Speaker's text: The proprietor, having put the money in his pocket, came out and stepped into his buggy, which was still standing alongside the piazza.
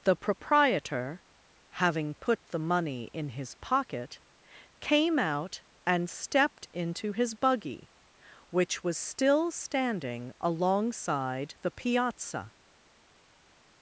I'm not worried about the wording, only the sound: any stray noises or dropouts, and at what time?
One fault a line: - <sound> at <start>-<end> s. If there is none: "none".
none